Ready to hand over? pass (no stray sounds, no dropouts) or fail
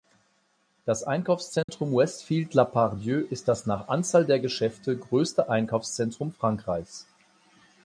fail